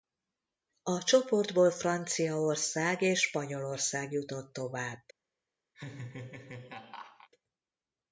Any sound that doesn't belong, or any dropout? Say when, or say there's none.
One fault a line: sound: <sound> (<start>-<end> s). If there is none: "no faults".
sound: laugh (5.7-7.3 s)